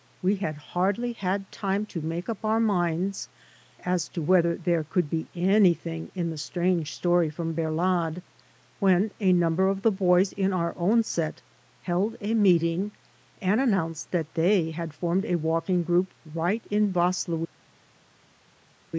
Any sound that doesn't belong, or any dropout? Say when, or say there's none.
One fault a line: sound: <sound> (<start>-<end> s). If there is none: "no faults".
no faults